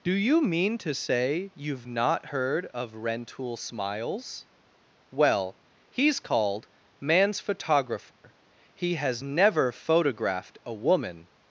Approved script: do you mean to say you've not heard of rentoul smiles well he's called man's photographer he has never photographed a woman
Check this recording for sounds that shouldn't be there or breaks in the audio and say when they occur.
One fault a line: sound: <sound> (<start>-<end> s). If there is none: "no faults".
sound: dropout (8.1-8.2 s)